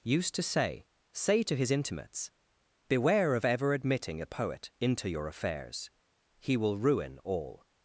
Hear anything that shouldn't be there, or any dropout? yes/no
no